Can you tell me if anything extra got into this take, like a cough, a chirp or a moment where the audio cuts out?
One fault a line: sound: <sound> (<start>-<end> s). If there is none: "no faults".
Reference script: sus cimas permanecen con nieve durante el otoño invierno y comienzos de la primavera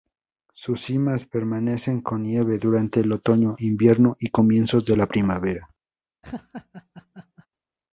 sound: laugh (6.2-7.5 s)